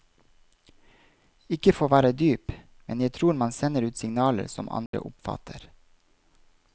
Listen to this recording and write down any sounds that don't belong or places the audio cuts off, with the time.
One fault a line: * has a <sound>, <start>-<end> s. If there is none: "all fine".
* has a dropout, 4.9-4.9 s